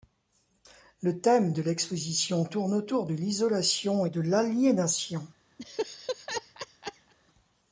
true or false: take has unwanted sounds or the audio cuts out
true